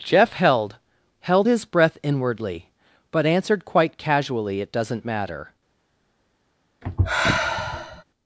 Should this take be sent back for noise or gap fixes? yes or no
yes